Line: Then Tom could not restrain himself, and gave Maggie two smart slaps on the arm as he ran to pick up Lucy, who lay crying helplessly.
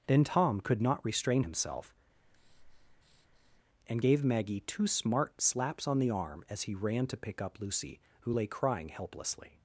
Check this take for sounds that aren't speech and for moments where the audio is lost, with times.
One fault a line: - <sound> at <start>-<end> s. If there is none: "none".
- breath at 2.1-3.6 s